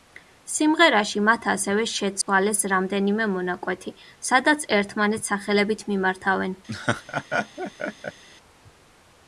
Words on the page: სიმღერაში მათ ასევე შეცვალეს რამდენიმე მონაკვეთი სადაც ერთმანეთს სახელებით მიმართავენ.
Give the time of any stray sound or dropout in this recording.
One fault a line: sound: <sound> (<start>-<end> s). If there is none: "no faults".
sound: dropout (2.2-2.3 s)
sound: laugh (6.7-8.2 s)